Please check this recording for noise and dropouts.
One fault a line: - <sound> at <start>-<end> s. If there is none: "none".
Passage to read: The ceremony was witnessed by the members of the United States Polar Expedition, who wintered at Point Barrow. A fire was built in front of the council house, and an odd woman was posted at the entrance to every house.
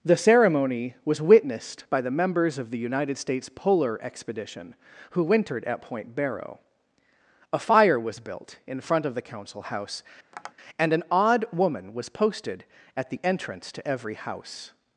- tap at 10.3-10.5 s